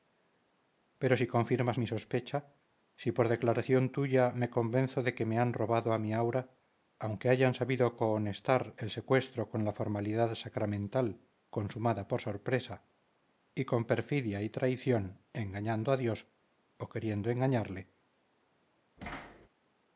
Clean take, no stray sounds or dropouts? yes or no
no